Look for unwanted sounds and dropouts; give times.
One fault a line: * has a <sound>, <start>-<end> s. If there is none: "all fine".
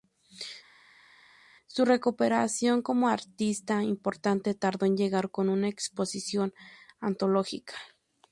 all fine